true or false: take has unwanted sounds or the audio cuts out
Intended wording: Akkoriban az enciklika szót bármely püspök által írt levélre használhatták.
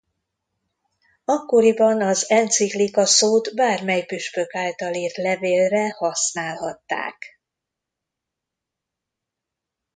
false